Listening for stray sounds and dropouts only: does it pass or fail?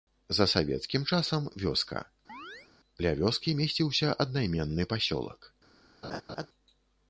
fail